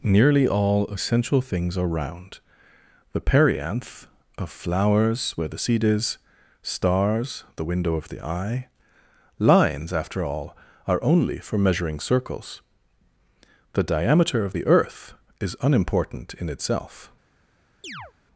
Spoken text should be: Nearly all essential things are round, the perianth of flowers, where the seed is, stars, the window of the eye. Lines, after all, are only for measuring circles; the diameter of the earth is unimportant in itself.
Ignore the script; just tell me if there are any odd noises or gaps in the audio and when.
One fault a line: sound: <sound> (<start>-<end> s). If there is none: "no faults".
sound: chirp (17.8-18.1 s)